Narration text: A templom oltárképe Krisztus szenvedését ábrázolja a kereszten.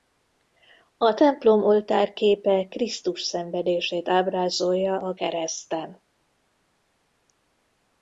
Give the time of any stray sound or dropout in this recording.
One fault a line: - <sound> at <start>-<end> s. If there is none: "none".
none